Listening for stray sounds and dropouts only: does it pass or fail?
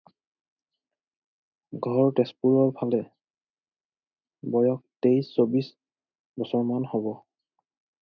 pass